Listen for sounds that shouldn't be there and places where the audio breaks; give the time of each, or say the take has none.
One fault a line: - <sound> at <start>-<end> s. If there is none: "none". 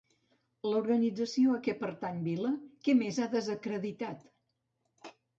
none